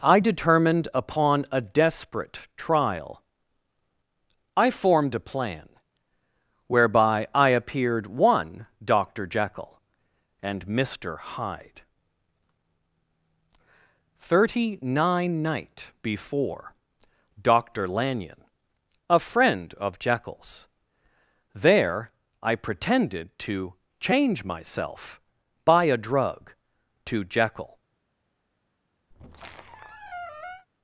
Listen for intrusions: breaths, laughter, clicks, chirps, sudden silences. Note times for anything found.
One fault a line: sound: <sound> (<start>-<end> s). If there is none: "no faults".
sound: squeak (29.1-30.7 s)